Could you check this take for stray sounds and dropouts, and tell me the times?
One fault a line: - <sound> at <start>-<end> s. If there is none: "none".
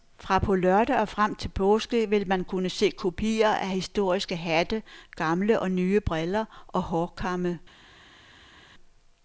none